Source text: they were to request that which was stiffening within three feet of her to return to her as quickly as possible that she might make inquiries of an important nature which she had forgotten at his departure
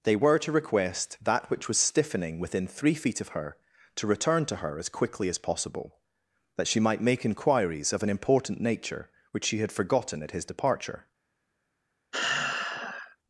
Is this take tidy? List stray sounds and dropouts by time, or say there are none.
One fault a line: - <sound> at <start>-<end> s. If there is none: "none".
- sigh at 12.1-13.2 s